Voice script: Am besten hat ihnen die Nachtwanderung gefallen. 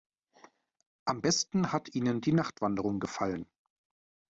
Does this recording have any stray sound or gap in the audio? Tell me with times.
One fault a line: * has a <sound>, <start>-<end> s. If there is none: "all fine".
all fine